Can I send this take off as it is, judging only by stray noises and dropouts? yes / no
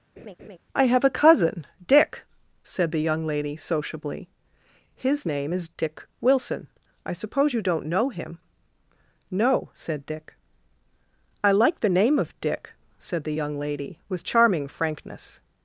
no